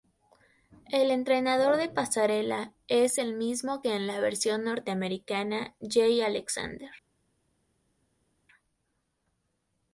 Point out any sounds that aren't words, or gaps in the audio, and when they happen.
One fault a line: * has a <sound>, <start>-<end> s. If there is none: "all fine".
all fine